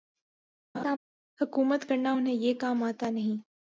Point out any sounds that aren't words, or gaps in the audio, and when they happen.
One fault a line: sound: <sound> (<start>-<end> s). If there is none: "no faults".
sound: laugh (0.7-1.0 s)